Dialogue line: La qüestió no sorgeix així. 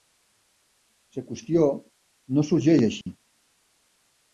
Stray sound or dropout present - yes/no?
yes